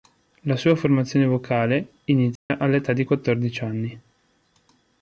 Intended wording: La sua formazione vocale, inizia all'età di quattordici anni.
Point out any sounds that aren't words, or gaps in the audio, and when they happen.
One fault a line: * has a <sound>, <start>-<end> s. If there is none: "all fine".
* has a dropout, 2.4-2.5 s